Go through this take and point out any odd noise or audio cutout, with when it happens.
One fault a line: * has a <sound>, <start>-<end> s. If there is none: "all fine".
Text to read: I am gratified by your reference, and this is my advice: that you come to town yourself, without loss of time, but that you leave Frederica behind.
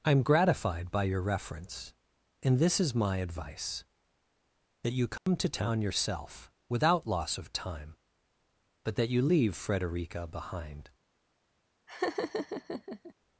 * has a dropout, 5.2-5.3 s
* has a laugh, 11.9-13.1 s